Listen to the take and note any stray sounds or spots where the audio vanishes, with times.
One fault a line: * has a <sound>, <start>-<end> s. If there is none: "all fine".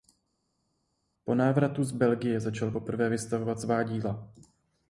all fine